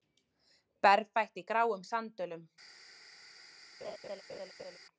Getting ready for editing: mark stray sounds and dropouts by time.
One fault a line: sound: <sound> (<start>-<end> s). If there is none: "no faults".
sound: laugh (3.8-4.8 s)